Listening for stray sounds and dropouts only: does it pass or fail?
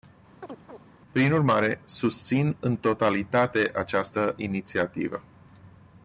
fail